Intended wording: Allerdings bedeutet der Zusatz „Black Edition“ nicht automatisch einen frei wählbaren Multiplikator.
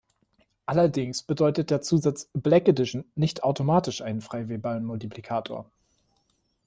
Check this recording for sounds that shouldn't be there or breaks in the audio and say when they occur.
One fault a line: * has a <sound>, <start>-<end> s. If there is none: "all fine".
all fine